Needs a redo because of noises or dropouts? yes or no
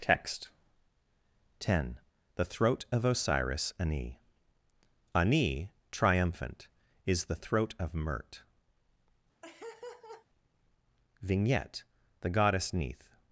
yes